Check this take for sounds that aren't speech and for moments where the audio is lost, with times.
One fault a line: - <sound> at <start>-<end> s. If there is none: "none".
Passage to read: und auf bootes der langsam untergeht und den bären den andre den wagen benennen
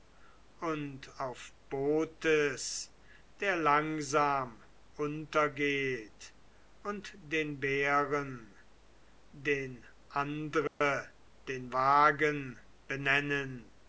- dropout at 10.7-10.8 s